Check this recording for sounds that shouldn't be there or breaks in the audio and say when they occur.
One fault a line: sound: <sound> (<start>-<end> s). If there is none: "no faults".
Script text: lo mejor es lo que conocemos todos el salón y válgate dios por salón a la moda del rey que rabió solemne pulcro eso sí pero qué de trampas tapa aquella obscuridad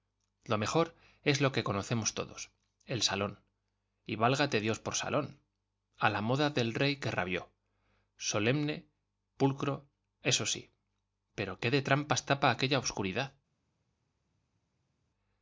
no faults